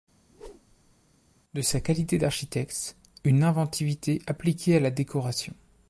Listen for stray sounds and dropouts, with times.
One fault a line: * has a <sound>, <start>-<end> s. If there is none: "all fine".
* has a whoosh, 0.3-1.0 s